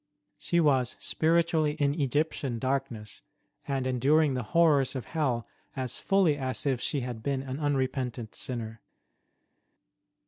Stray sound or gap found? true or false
false